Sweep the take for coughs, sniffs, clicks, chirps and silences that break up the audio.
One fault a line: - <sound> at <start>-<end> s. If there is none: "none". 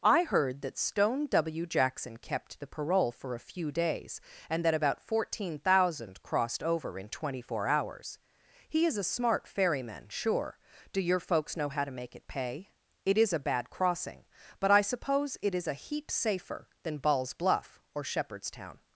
none